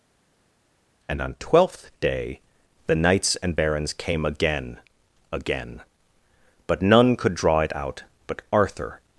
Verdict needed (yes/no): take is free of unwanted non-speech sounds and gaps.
yes